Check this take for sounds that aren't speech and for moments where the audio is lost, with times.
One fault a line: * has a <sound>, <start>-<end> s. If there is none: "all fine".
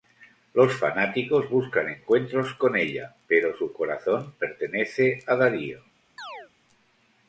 * has a chirp, 6.2-6.5 s